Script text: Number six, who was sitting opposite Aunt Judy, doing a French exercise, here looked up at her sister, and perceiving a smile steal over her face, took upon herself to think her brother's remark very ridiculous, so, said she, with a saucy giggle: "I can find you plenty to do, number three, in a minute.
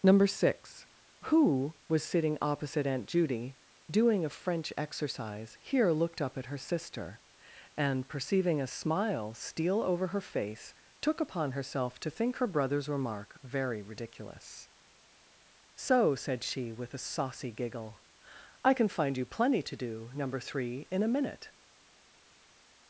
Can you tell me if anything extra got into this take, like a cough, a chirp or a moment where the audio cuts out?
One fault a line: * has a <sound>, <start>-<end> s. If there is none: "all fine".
all fine